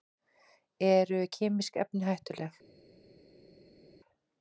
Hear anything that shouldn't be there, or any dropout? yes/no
no